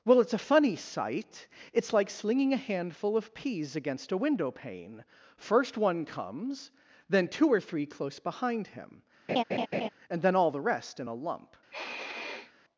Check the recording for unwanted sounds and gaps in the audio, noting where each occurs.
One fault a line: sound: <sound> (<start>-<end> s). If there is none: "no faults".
sound: laugh (9.3-9.9 s)
sound: sniff (11.7-12.5 s)